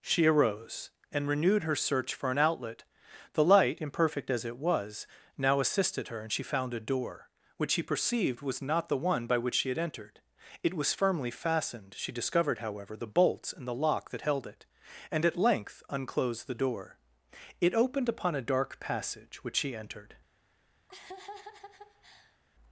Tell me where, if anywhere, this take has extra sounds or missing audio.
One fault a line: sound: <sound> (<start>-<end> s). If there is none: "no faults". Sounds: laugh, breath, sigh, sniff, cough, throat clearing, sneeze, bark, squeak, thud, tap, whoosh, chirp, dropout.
sound: laugh (20.9-22.4 s)